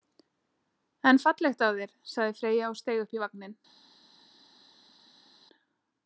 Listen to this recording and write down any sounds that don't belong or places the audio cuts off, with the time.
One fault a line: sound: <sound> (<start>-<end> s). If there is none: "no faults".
no faults